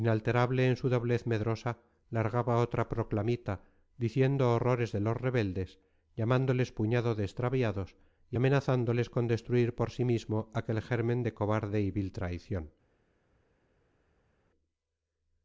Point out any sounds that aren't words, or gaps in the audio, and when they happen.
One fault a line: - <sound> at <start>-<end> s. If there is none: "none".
none